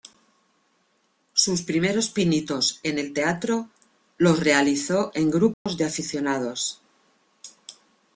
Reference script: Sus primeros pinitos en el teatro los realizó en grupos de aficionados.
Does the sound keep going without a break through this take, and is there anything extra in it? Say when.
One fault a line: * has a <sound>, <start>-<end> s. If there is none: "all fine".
* has a dropout, 5.5-5.7 s